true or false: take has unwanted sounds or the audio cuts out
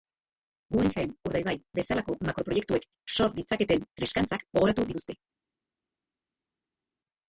false